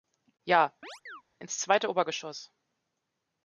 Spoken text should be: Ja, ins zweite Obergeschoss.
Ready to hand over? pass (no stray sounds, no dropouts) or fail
fail